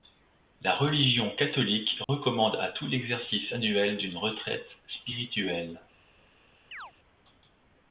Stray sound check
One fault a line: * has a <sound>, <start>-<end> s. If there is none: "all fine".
* has a dropout, 2.0-2.1 s
* has a chirp, 6.7-6.9 s